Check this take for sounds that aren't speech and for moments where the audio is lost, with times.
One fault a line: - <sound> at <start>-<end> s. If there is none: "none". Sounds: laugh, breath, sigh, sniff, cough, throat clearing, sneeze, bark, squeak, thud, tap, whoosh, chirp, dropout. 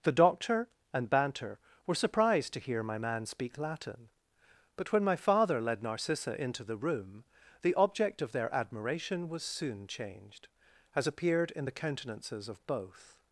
none